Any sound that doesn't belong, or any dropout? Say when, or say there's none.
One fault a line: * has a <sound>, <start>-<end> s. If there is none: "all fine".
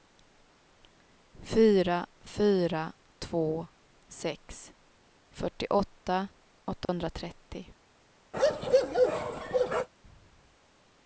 * has a dropout, 6.9-6.9 s
* has a bark, 8.3-9.9 s